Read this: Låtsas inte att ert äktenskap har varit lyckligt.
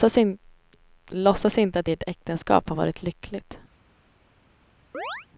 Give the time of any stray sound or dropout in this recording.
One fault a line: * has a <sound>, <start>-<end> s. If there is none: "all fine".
* has a chirp, 4.9-5.3 s